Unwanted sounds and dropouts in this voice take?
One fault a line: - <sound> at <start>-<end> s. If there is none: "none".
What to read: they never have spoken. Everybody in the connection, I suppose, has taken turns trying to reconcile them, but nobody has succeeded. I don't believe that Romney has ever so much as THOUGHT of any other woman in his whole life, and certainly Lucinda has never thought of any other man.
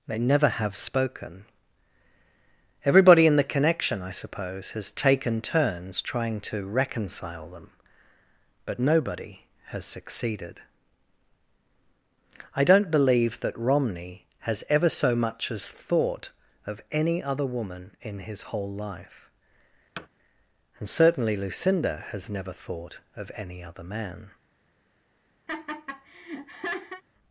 - thud at 20.0-20.1 s
- laugh at 25.5-27.0 s